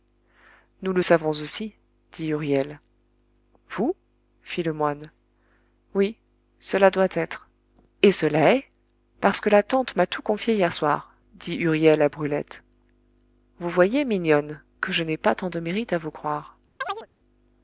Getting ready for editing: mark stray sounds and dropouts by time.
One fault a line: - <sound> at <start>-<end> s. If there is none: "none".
- chirp at 16.8-17.1 s